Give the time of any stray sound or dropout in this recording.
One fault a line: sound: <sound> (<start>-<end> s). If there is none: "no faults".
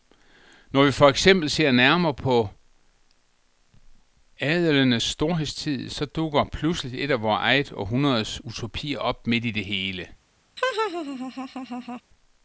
sound: laugh (10.6-12.0 s)